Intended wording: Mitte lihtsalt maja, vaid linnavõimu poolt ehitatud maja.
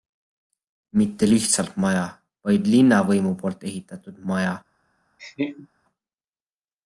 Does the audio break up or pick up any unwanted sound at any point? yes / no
yes